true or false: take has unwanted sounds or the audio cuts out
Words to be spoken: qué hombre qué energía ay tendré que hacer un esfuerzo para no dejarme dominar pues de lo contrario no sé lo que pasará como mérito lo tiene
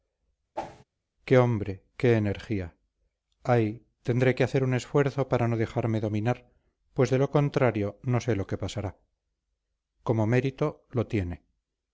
true